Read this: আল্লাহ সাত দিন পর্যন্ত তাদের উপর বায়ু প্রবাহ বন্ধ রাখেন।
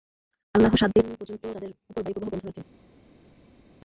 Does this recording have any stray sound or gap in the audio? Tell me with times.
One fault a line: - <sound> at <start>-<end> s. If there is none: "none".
none